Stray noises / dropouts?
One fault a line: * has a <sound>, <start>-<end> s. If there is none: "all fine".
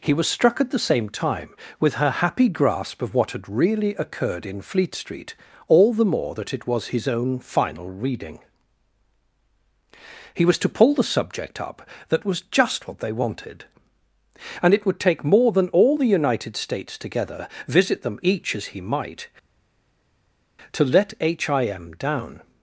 all fine